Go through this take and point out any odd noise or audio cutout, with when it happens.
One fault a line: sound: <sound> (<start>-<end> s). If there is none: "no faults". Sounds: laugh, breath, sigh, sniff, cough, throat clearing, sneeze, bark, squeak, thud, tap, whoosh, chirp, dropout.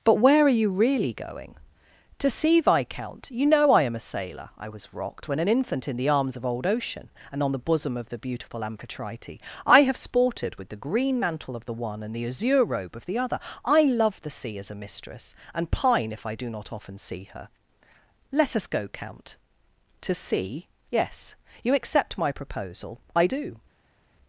no faults